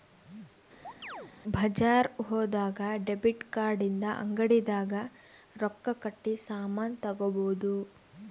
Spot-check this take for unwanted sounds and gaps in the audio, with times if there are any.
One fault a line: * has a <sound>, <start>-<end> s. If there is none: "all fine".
* has a chirp, 0.8-1.3 s